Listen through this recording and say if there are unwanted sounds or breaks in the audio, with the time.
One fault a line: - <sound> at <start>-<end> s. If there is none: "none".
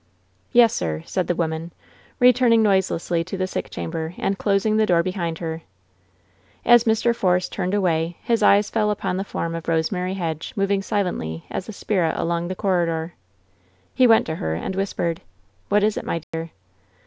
- dropout at 16.2-16.3 s